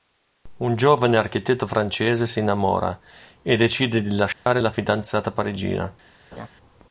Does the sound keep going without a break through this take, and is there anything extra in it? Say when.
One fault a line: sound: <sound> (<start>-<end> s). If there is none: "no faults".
sound: dropout (4.3-4.5 s)
sound: laugh (6.3-6.5 s)